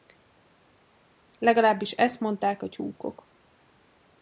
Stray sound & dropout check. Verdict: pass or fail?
pass